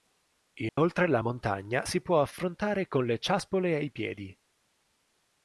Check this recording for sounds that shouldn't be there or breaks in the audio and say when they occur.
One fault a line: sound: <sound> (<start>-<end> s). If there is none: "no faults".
sound: dropout (0.7-0.8 s)